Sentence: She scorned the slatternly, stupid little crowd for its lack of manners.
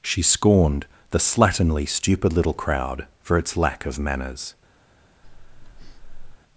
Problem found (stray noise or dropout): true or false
true